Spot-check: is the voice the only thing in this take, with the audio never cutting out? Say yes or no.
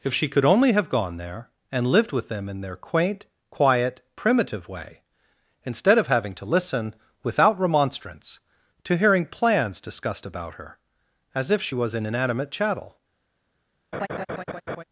no